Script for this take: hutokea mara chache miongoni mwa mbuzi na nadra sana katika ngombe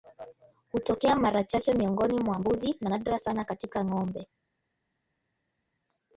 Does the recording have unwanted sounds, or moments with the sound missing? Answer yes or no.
no